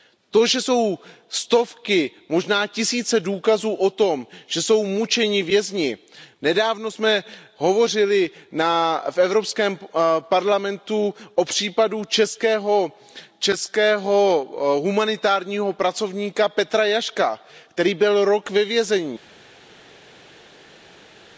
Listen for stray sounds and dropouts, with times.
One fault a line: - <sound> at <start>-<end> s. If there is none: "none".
none